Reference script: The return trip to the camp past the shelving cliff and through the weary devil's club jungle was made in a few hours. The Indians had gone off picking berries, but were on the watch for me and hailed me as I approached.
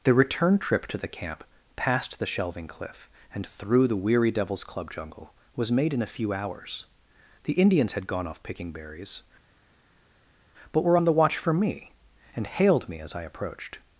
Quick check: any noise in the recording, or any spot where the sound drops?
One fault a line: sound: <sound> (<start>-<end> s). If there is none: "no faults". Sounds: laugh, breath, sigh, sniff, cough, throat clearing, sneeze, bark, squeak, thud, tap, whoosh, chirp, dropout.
no faults